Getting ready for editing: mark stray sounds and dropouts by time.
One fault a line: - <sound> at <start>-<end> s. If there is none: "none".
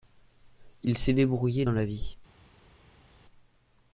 none